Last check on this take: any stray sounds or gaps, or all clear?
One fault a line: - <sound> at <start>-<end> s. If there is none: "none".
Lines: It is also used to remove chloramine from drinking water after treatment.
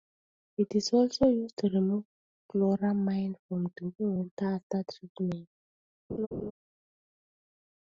- laugh at 6.1-6.5 s